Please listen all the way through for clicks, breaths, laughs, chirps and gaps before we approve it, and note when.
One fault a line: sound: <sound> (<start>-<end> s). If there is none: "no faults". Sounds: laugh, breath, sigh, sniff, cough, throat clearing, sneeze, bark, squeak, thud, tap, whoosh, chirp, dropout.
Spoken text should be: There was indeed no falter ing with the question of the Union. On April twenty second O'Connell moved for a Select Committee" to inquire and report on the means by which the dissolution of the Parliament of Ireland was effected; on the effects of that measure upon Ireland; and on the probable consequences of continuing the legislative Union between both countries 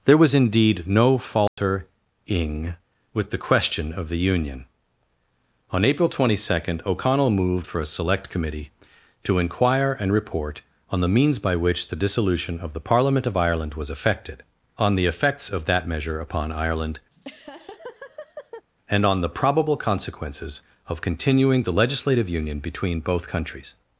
sound: dropout (1.5-1.6 s)
sound: laugh (17.1-18.6 s)